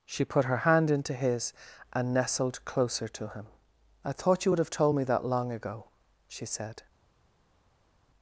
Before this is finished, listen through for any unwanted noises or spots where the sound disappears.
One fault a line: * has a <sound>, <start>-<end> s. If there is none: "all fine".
all fine